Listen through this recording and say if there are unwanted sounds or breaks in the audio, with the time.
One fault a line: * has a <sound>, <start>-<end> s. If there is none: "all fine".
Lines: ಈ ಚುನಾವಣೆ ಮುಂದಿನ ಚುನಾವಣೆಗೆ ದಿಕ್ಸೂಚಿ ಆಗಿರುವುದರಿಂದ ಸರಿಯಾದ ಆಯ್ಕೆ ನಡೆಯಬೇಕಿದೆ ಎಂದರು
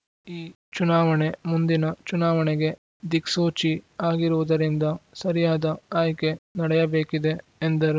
all fine